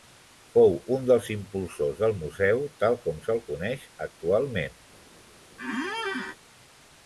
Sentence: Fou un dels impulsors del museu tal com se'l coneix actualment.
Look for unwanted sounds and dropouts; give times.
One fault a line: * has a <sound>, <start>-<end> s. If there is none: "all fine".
* has a squeak, 5.6-6.4 s